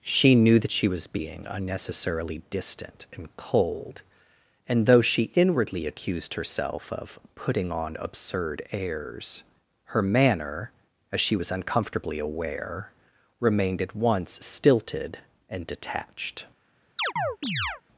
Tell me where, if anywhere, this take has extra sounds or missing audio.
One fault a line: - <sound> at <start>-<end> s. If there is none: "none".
- chirp at 17.0-17.8 s